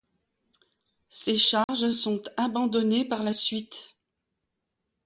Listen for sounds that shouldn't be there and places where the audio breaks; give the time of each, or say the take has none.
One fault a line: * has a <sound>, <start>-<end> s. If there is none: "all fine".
* has a dropout, 1.6-1.7 s